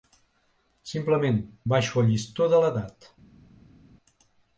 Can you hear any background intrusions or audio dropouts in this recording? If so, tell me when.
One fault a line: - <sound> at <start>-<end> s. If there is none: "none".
none